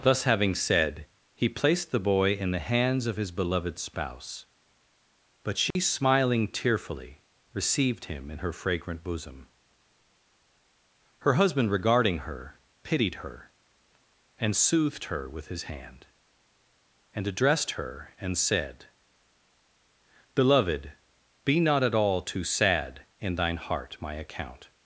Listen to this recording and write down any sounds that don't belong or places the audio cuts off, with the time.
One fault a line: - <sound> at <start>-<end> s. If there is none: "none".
- dropout at 5.7-5.8 s